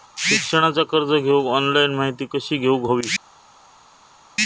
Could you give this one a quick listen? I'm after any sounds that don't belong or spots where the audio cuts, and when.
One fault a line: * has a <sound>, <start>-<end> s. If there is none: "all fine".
all fine